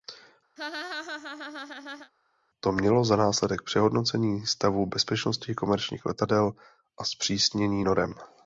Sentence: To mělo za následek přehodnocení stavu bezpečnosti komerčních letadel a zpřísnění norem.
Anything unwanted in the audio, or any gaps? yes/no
yes